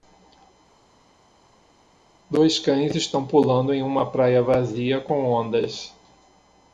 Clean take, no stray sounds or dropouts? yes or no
yes